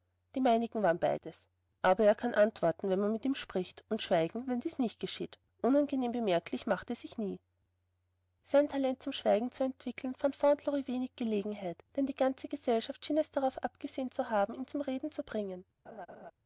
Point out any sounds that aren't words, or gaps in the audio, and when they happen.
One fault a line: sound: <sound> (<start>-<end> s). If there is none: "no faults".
sound: laugh (15.8-16.3 s)